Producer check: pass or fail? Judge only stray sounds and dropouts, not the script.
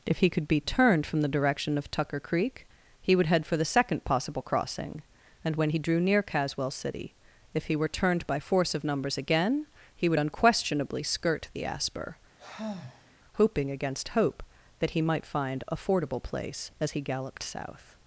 fail